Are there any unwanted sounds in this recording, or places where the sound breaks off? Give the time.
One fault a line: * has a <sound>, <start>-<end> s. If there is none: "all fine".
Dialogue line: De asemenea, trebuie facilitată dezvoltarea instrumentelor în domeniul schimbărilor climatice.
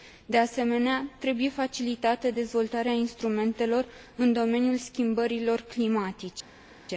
all fine